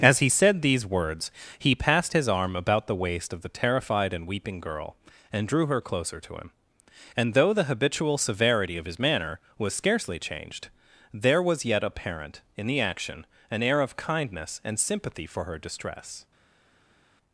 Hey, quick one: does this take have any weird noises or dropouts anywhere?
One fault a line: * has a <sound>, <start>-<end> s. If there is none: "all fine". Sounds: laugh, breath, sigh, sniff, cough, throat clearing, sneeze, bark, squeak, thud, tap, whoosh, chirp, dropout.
all fine